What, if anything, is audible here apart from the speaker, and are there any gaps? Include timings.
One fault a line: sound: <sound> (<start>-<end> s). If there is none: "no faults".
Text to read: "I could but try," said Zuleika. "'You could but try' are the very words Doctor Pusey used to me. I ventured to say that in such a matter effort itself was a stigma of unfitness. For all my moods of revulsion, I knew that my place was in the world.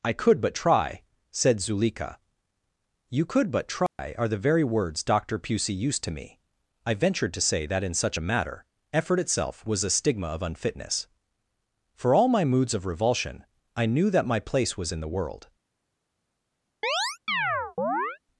sound: dropout (3.9-4.0 s)
sound: chirp (16.8-18.2 s)